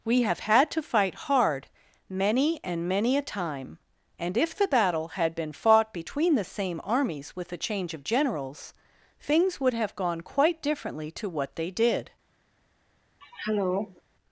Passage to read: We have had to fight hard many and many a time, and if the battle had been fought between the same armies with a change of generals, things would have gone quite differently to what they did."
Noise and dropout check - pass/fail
fail